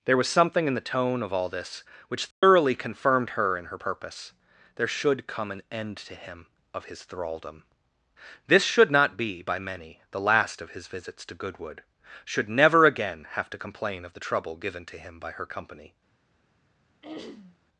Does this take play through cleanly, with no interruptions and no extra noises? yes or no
no